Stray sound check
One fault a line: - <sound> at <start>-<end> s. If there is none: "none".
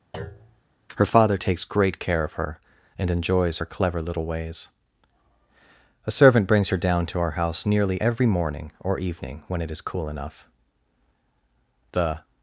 - thud at 0.1-0.6 s